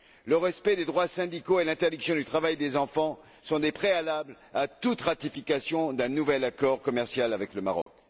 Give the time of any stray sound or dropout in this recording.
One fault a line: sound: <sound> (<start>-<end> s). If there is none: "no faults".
sound: dropout (7.8-7.9 s)